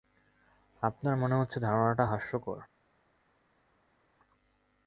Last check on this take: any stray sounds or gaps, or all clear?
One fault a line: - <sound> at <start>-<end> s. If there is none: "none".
none